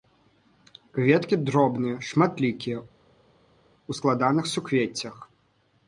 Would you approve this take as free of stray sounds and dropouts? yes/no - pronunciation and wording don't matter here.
yes